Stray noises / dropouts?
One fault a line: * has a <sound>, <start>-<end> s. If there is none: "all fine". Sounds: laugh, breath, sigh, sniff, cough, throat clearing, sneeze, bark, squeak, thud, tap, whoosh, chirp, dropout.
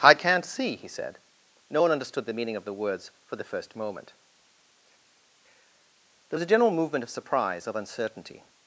all fine